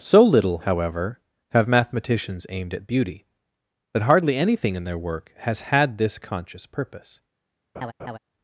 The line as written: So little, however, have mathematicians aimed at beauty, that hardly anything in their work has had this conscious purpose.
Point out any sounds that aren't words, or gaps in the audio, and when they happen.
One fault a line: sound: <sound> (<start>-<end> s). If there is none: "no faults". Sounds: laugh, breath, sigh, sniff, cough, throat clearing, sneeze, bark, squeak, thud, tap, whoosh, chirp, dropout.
sound: laugh (7.7-8.2 s)